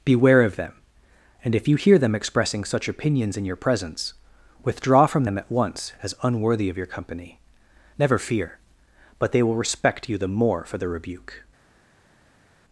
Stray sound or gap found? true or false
false